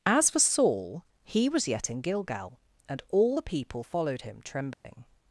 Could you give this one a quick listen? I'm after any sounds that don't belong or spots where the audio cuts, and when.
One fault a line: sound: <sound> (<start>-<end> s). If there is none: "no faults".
sound: dropout (4.7-4.8 s)